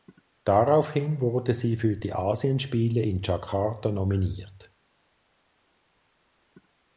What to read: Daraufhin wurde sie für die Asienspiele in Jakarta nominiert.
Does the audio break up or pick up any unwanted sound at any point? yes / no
no